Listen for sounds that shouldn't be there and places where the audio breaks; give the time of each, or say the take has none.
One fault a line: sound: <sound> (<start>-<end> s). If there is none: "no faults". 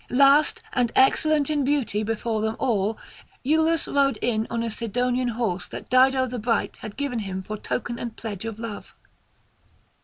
no faults